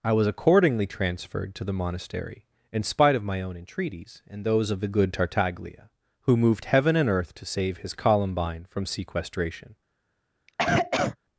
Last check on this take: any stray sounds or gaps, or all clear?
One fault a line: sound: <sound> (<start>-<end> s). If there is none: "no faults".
sound: cough (10.5-11.2 s)